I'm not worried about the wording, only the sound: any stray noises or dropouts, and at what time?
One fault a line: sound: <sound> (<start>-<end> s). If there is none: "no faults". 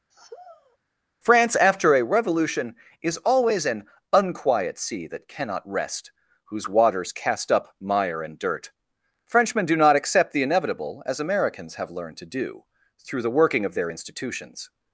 sound: sigh (0.1-0.8 s)